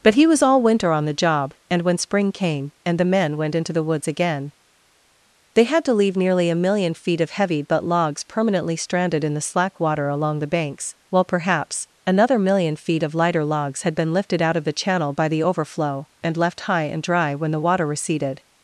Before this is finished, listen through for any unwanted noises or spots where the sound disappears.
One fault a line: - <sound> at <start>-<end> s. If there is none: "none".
none